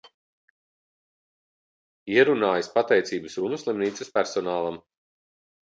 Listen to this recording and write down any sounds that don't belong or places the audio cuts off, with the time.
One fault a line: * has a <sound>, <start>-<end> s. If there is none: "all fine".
all fine